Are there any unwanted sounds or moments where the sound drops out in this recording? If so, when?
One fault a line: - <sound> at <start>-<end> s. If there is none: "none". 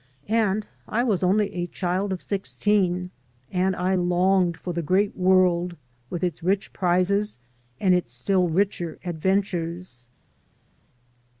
none